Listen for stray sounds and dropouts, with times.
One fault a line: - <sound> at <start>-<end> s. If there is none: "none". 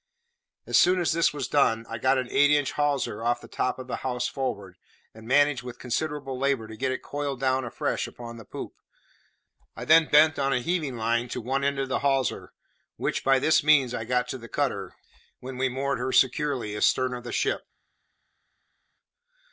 none